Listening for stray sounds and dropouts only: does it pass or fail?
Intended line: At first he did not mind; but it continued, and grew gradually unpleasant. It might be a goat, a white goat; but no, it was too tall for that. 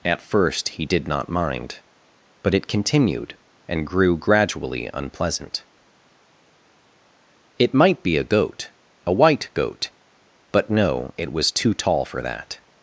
pass